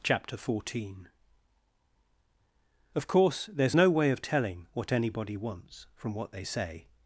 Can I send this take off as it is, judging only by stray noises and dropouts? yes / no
yes